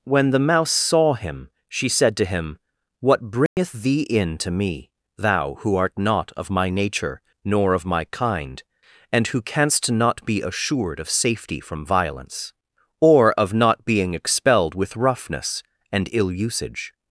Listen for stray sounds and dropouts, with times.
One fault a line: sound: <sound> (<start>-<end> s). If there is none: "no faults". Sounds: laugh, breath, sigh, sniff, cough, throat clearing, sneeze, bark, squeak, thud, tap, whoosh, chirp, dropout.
sound: dropout (3.5-3.6 s)